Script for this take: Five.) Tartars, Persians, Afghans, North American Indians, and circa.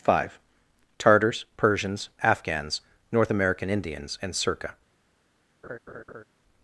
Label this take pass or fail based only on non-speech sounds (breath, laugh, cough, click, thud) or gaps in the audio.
fail